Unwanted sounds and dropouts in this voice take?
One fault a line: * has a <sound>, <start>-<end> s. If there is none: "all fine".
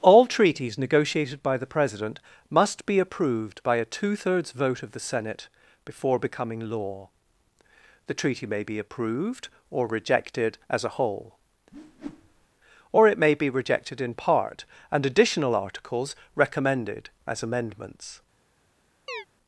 * has a whoosh, 11.7-12.5 s
* has a chirp, 19.1-19.3 s